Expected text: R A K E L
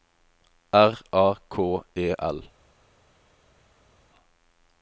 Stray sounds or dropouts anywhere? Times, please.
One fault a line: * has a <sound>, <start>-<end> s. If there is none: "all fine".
all fine